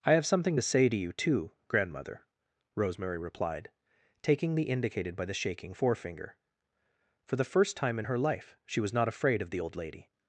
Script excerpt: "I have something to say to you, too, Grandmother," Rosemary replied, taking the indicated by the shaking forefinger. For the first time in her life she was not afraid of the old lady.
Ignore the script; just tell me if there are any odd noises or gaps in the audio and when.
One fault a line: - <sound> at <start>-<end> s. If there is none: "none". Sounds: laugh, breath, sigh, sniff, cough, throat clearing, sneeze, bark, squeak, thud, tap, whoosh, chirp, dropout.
none